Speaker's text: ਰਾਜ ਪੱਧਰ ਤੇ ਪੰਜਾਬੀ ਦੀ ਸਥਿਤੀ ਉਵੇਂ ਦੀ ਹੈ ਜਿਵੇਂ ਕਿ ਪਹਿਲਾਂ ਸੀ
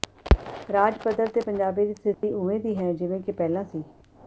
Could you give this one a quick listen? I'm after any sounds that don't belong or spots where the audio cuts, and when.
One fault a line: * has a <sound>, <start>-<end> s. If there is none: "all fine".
* has a dropout, 2.1-2.2 s